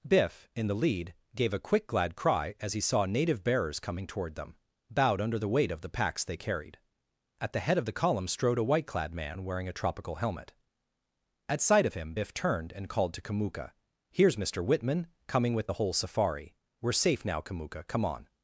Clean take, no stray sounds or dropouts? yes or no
yes